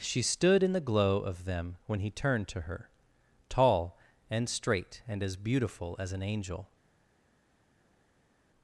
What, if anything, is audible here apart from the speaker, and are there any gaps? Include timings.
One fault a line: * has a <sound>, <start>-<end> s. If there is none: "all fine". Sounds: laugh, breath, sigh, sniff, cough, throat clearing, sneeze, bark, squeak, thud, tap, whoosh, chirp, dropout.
all fine